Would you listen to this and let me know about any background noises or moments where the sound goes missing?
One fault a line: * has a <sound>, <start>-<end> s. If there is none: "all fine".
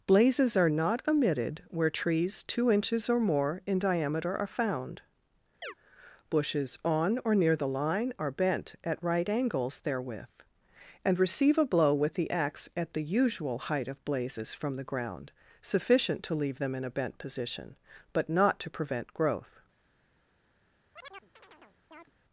* has a chirp, 5.6-5.7 s
* has a chirp, 20.9-22.1 s